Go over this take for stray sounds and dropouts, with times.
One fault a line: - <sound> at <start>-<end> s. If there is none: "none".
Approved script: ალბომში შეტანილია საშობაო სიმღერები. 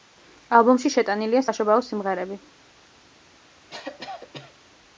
- cough at 3.7-4.5 s